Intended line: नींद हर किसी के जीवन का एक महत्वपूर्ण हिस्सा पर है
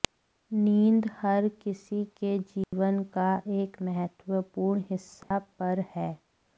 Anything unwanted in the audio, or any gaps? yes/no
yes